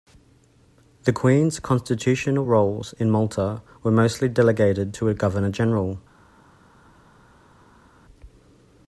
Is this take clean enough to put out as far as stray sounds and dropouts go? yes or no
yes